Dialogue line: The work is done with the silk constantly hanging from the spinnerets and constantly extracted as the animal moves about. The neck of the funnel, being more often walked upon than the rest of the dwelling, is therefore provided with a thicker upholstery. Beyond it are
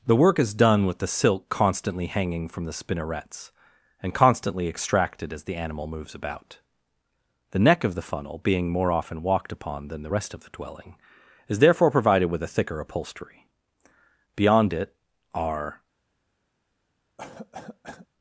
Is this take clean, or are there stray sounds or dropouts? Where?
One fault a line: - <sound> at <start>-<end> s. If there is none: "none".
- cough at 17.2-18.1 s